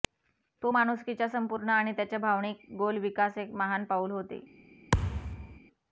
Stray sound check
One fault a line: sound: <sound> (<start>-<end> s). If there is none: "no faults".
sound: thud (4.9-5.6 s)